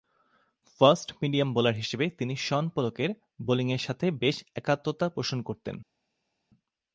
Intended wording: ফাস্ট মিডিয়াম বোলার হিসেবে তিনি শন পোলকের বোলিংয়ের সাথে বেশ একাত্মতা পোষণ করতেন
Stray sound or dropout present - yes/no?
no